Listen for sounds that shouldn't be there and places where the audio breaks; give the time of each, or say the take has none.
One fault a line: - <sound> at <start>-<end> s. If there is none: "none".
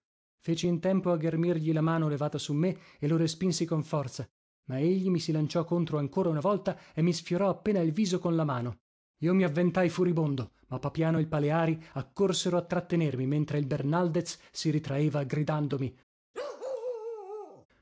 - bark at 16.3-17.7 s